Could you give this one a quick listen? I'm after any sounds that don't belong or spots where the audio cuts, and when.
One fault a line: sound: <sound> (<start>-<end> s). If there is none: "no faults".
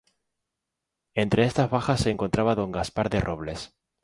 no faults